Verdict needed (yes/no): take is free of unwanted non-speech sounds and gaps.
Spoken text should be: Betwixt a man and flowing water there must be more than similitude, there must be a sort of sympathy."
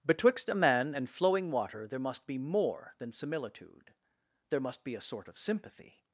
yes